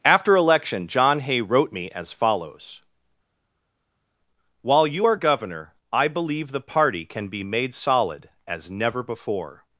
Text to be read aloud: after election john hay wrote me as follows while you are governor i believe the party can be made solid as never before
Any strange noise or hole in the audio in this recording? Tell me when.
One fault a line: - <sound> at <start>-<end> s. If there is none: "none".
none